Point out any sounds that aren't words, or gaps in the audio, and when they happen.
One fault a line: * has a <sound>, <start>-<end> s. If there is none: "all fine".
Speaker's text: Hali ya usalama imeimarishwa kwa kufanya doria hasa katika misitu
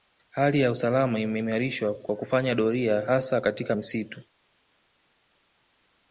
all fine